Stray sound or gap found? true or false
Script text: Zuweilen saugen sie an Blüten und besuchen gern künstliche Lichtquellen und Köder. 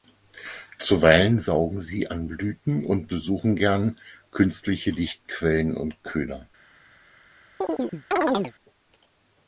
true